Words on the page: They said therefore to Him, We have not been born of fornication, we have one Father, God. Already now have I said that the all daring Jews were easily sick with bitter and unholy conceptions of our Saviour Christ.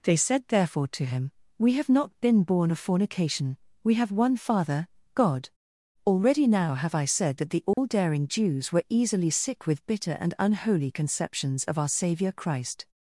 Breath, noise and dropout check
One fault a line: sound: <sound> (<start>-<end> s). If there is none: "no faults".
sound: dropout (7.7-7.8 s)